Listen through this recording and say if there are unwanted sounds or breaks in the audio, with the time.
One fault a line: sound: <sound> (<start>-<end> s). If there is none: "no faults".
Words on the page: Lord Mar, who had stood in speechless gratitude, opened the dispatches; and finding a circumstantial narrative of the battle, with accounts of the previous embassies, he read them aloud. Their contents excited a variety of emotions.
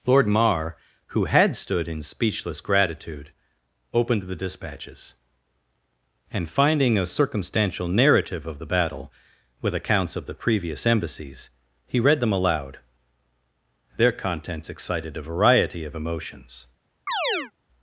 sound: chirp (17.1-17.5 s)